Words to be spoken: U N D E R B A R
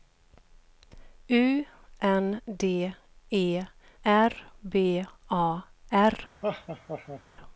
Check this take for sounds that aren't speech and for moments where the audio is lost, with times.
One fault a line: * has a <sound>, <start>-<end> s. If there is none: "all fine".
* has a laugh, 6.4-7.2 s